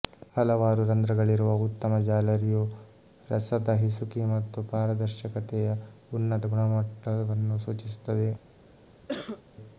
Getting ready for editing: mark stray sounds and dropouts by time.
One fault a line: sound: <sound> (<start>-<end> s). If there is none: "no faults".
sound: cough (9.1-9.4 s)